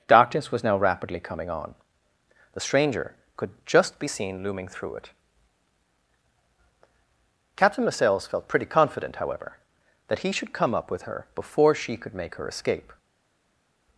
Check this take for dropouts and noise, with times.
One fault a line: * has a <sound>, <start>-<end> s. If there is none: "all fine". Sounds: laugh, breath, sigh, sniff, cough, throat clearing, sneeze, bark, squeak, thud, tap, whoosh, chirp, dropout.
all fine